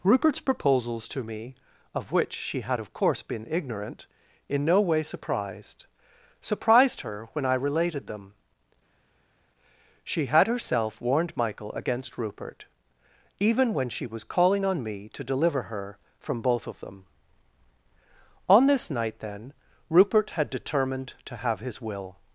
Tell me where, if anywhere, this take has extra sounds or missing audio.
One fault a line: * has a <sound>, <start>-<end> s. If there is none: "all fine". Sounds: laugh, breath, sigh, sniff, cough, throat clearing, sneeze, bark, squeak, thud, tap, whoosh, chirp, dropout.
all fine